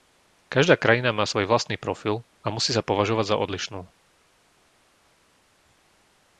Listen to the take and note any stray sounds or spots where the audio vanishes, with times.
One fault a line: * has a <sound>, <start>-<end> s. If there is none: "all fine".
all fine